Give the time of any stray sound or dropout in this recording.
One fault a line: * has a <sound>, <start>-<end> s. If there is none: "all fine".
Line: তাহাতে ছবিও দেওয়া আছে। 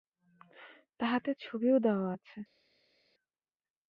all fine